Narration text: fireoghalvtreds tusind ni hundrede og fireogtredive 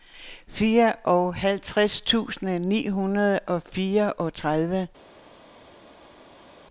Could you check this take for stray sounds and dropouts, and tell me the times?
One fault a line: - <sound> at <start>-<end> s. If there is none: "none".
none